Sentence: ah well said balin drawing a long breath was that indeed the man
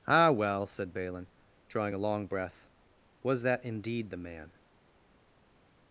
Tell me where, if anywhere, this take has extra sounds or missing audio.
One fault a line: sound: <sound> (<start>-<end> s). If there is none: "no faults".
no faults